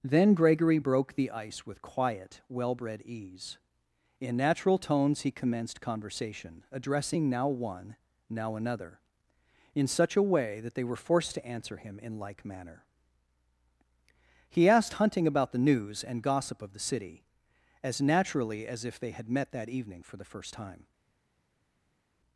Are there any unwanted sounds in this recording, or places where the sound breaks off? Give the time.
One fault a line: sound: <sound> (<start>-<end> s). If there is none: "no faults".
no faults